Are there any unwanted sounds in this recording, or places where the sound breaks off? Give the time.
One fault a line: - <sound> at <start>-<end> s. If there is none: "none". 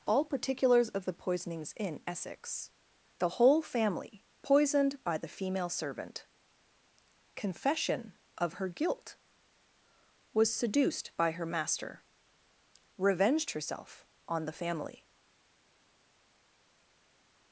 none